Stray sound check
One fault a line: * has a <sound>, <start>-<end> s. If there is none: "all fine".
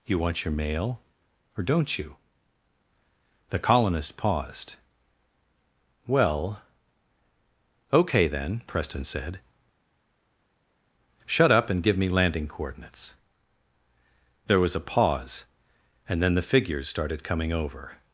all fine